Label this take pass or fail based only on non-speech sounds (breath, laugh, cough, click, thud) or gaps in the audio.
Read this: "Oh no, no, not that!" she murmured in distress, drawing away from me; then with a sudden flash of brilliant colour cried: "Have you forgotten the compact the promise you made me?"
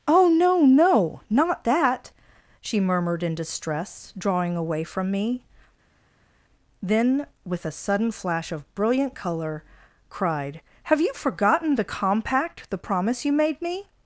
pass